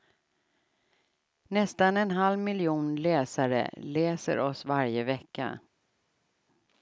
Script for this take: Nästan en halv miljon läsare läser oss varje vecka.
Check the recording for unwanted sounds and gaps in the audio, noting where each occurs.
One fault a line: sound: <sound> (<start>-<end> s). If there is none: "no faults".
no faults